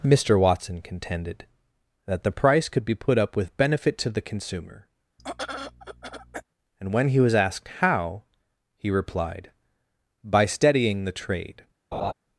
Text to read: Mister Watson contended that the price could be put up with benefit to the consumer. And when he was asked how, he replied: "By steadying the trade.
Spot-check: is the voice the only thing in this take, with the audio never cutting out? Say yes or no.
no